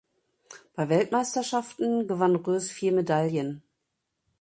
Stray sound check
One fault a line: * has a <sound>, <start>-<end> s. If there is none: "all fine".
all fine